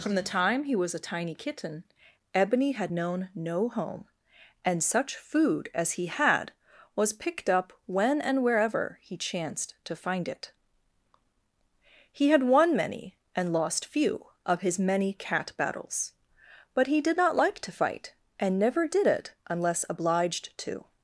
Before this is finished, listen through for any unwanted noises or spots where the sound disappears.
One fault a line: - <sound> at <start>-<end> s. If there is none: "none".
none